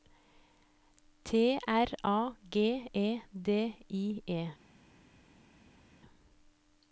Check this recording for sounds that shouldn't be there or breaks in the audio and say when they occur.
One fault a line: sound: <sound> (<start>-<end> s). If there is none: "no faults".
no faults